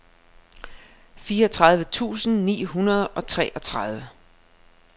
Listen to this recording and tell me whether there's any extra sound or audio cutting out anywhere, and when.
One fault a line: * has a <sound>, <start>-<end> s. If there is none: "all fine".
all fine